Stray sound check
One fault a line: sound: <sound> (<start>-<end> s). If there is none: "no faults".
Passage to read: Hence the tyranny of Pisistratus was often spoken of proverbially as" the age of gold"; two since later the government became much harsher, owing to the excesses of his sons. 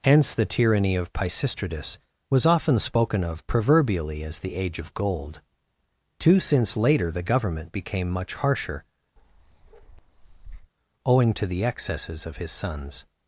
sound: bark (9.2-10.7 s)